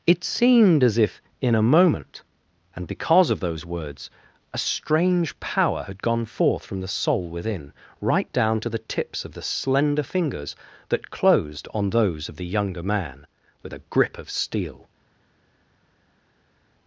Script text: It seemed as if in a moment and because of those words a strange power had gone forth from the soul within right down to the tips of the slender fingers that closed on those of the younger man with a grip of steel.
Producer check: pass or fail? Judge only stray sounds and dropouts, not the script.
pass